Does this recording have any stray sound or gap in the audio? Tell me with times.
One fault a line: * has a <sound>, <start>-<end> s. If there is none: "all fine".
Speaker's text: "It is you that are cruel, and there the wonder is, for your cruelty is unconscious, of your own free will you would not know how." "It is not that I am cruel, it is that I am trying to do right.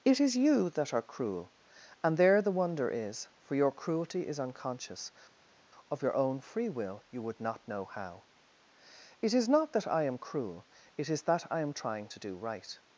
all fine